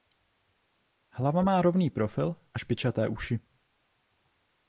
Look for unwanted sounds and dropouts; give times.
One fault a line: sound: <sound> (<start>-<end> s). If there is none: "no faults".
no faults